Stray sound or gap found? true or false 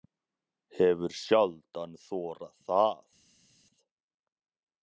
false